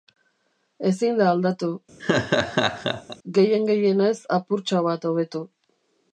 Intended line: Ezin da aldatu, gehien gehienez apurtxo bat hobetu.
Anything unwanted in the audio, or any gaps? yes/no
yes